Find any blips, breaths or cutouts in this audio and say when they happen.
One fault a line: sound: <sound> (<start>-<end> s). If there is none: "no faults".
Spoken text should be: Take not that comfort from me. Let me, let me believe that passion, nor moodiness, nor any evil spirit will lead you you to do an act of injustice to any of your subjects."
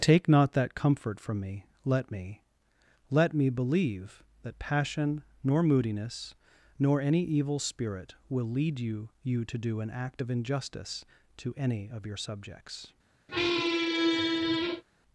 sound: squeak (13.3-14.8 s)